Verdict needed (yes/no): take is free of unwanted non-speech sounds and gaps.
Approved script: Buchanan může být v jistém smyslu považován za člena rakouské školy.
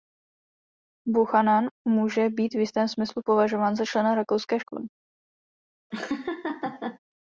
no